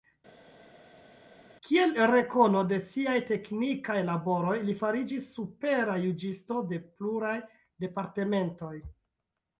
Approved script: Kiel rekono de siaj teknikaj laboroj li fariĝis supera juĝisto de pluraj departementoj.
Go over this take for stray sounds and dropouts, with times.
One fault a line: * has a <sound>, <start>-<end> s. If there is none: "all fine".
all fine